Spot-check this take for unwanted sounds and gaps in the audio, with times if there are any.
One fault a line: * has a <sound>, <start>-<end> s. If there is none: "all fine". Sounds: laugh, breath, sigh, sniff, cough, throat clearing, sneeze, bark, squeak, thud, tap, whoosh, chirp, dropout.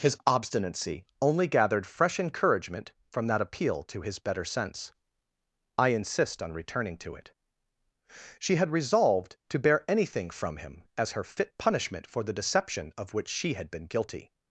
all fine